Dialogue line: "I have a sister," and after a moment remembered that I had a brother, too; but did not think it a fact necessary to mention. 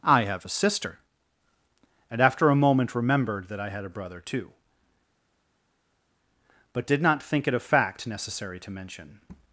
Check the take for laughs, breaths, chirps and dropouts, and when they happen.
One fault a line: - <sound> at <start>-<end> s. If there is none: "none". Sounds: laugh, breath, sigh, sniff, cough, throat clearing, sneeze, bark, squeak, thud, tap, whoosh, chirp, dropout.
none